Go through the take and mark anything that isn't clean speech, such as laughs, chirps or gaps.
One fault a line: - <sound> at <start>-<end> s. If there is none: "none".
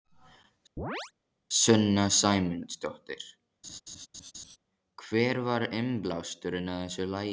- chirp at 0.8-1.1 s
- laugh at 3.6-4.6 s